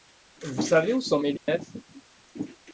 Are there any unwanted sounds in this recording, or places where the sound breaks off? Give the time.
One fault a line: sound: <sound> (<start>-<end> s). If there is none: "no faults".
sound: dropout (1.4-1.5 s)